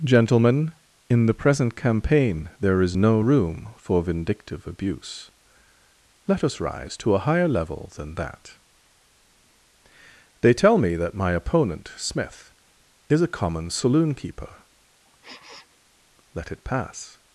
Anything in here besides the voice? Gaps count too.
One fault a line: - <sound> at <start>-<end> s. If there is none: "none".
- sniff at 15.0-15.8 s